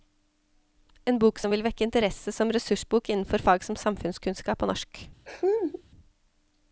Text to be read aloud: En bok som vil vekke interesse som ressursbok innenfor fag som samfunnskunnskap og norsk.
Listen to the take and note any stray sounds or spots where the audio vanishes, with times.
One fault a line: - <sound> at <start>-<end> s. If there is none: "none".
- laugh at 5.3-5.8 s